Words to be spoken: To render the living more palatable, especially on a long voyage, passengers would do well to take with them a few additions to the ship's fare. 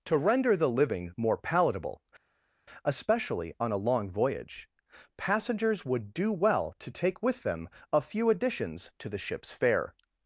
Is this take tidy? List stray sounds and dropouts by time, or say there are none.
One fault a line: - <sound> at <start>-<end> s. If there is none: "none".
none